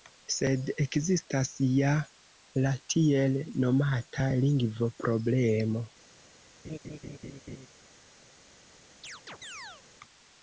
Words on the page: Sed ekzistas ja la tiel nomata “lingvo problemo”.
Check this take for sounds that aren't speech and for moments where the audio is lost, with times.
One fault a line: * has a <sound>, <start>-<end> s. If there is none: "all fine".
* has a laugh, 6.6-7.7 s
* has a chirp, 9.0-9.8 s